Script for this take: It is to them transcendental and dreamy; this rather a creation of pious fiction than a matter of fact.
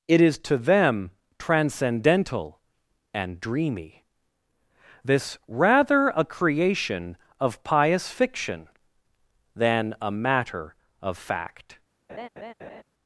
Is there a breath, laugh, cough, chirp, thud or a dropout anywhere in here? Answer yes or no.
yes